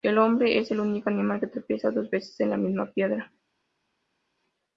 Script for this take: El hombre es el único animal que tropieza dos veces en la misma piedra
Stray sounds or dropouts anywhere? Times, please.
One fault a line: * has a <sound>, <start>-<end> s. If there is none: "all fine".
all fine